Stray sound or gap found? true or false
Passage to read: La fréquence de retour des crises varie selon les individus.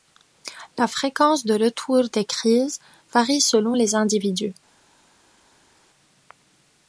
false